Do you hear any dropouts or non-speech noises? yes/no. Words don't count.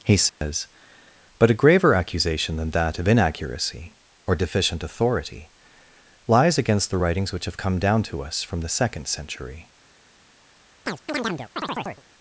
yes